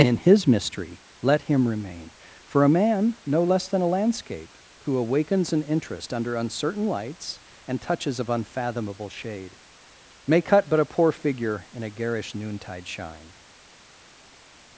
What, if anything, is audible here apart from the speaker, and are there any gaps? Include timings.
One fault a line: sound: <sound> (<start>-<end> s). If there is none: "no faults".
no faults